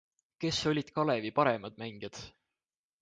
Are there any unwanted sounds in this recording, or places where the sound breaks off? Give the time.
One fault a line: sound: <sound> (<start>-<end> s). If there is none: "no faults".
no faults